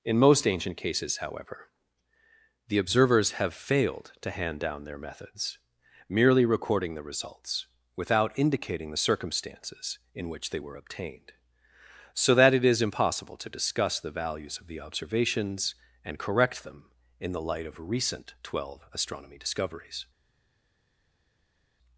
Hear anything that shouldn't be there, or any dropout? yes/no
no